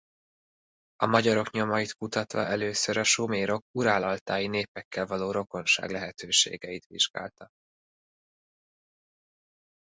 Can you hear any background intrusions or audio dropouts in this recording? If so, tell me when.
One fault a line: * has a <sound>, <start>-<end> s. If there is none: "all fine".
all fine